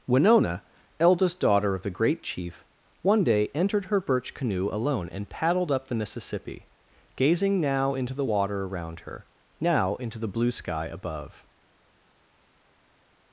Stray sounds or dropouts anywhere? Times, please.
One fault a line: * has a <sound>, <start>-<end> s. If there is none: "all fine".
all fine